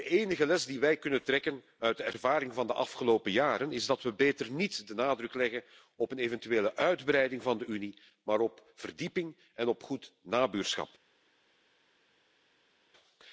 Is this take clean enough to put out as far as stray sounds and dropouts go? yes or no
yes